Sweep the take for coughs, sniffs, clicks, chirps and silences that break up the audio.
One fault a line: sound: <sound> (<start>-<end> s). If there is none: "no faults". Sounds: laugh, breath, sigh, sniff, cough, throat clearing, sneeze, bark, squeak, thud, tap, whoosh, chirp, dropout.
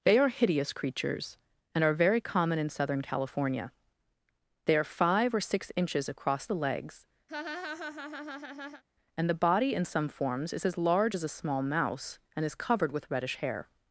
sound: laugh (7.3-8.8 s)